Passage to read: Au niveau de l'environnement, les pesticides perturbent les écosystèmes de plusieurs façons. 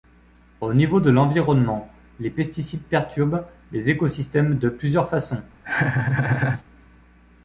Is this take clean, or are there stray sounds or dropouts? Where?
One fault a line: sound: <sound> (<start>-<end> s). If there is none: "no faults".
sound: laugh (5.6-6.6 s)